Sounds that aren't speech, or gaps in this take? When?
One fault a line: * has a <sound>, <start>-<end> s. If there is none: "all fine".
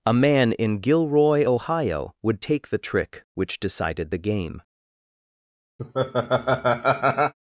* has a laugh, 5.8-7.3 s